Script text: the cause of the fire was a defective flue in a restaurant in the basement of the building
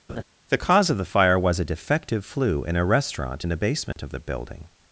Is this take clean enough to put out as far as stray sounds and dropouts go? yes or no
no